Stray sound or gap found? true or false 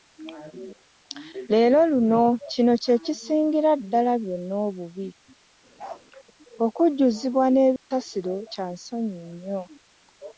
true